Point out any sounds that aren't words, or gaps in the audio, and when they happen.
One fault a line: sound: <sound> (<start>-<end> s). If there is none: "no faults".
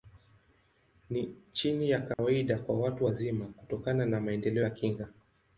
sound: dropout (2.1-2.2 s)